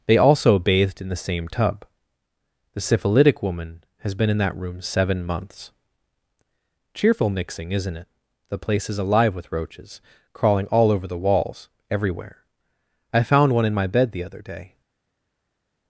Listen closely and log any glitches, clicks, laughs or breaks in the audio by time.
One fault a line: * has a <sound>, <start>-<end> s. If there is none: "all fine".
all fine